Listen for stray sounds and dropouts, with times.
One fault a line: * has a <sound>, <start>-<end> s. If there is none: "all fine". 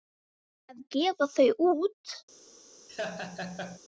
* has a laugh, 2.9-3.8 s